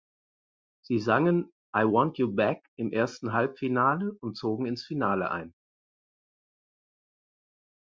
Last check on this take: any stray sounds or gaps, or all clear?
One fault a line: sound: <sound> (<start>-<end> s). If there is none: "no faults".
no faults